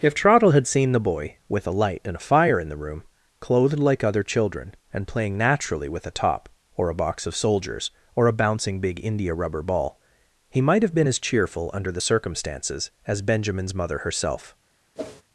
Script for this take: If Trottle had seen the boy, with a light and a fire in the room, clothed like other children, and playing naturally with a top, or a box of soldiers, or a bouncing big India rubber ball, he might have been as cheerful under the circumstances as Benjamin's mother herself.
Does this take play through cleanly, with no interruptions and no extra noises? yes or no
no